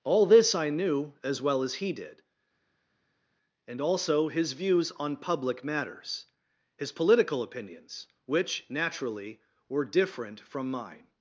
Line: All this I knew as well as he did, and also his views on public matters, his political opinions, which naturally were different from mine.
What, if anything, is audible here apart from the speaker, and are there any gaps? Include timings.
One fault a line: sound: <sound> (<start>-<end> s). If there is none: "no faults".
no faults